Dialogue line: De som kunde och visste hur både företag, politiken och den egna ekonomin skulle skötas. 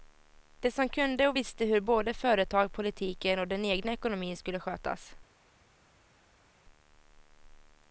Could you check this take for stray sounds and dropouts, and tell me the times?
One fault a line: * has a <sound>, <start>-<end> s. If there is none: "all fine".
all fine